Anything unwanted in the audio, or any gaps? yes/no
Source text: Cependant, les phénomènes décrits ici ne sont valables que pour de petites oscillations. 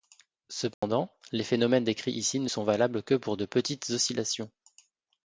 yes